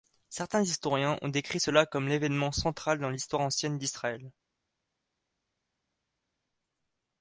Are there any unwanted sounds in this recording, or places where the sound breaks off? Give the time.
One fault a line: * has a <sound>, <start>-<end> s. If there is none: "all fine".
all fine